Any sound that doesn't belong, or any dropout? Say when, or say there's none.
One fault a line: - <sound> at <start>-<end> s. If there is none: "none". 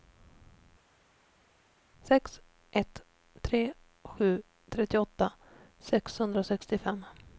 none